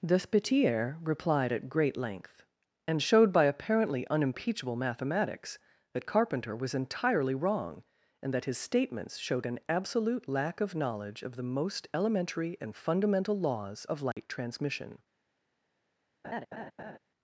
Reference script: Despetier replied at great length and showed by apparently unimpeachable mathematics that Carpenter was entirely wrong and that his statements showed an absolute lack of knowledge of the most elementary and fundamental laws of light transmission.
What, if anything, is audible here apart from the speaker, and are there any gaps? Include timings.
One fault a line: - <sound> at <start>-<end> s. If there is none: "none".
- dropout at 14.1-14.2 s
- laugh at 16.2-17.0 s